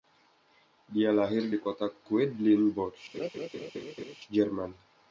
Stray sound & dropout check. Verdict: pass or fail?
fail